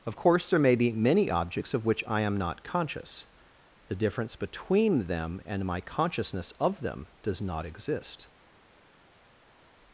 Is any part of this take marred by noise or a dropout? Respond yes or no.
no